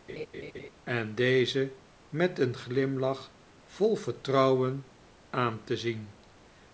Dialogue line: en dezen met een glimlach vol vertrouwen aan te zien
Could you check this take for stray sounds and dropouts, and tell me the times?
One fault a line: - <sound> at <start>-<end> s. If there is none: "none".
- laugh at 0.1-0.7 s